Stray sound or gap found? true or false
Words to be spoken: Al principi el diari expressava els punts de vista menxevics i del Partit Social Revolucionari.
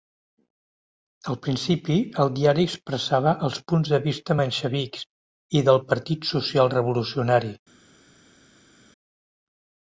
false